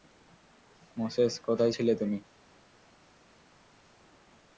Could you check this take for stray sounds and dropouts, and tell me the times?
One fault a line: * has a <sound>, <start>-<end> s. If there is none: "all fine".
all fine